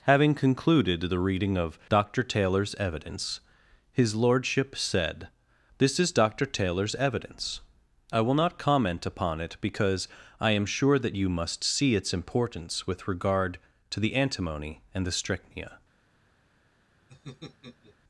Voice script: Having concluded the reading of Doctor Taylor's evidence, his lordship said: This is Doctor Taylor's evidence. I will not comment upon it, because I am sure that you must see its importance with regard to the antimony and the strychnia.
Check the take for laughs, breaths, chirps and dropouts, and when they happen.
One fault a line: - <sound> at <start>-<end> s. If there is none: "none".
- laugh at 17.1-18.0 s